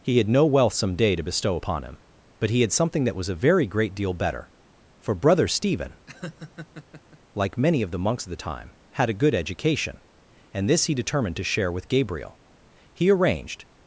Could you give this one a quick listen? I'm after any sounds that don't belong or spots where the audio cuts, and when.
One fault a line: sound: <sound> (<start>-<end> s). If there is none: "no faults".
sound: laugh (6.1-7.2 s)